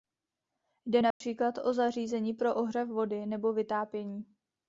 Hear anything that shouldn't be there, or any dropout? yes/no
yes